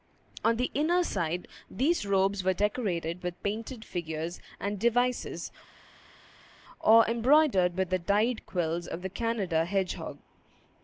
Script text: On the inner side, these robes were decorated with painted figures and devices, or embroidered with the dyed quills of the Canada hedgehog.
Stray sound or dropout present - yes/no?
no